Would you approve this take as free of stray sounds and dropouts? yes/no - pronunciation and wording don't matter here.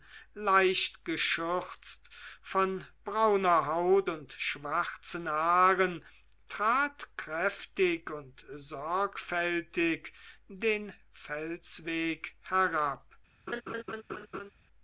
no